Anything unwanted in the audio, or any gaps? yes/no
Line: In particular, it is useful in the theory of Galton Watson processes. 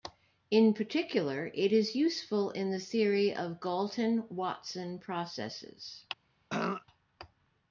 yes